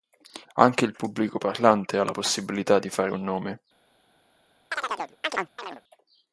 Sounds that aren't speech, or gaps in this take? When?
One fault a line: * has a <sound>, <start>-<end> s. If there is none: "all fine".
* has a chirp, 4.7-5.8 s